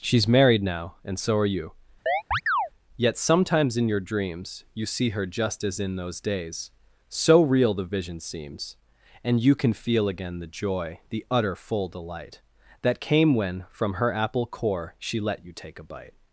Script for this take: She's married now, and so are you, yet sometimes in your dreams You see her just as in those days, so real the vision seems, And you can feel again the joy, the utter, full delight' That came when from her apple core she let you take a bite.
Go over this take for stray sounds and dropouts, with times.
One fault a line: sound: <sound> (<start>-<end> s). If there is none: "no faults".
sound: chirp (2.1-2.7 s)